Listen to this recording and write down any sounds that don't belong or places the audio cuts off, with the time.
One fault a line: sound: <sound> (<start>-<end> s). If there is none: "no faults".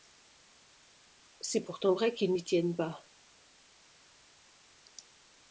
no faults